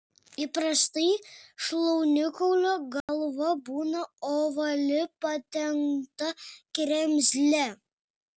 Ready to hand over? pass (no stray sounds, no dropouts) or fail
fail